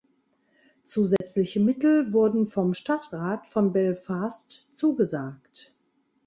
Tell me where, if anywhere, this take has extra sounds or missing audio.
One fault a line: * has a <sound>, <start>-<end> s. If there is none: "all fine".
* has a dropout, 1.2-1.2 s